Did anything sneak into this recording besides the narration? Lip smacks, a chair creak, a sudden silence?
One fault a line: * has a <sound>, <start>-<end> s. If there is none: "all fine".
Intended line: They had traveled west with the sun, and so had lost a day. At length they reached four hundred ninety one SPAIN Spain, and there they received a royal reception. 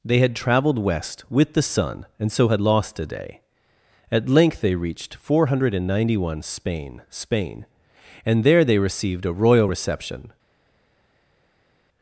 all fine